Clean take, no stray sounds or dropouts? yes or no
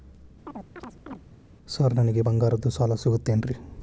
no